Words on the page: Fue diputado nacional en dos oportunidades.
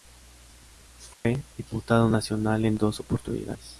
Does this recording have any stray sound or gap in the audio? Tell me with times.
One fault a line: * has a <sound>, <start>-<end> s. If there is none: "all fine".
* has a dropout, 1.1-1.2 s